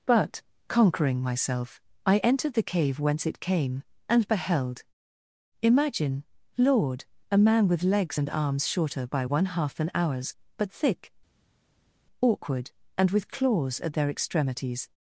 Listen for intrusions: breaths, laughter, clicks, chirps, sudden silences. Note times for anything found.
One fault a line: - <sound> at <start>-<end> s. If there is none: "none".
none